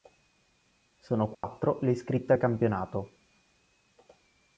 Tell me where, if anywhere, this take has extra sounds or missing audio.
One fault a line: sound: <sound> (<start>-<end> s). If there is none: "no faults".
sound: dropout (1.3-1.4 s)